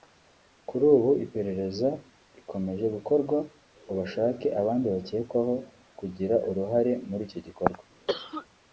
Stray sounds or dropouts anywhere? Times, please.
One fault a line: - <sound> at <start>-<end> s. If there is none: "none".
- cough at 8.1-8.5 s